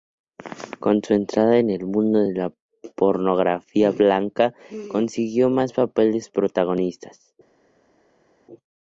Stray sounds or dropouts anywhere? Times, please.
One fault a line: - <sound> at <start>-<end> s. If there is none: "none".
none